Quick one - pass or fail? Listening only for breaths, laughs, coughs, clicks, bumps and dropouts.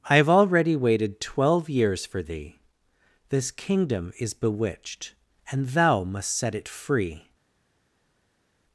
pass